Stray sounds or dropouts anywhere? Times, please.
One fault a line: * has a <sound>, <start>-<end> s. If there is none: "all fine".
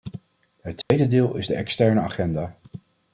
* has a dropout, 0.8-0.9 s